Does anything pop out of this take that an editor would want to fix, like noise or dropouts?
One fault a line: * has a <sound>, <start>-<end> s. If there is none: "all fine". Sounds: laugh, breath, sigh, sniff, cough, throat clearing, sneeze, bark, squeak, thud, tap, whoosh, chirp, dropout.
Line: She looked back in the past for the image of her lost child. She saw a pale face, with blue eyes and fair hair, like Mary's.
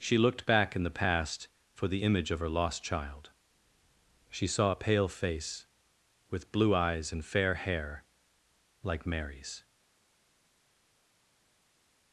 all fine